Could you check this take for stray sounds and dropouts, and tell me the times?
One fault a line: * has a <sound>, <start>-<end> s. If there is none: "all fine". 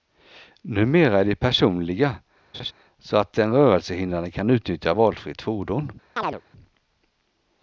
* has a laugh, 2.5-2.7 s
* has a chirp, 6.2-6.4 s